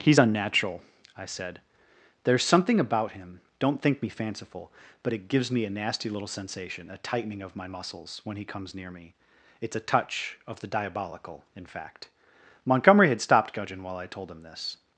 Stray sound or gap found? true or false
false